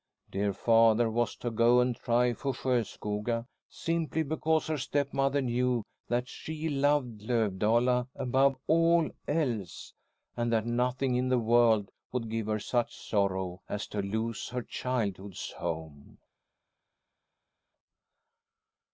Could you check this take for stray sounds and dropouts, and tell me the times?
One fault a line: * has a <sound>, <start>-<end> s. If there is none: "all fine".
all fine